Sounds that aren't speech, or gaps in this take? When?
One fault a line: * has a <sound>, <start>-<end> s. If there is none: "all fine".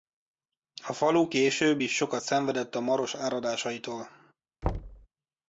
* has a thud, 4.6-5.1 s